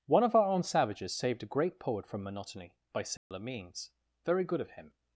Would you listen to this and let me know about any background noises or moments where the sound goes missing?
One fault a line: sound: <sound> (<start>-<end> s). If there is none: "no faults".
sound: dropout (3.2-3.3 s)